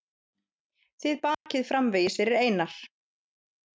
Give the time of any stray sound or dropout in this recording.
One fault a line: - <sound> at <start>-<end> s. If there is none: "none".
- dropout at 1.3-1.5 s